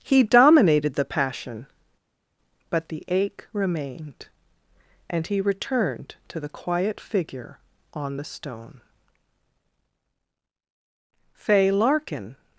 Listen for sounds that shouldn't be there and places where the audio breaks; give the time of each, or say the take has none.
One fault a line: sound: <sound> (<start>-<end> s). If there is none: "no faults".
no faults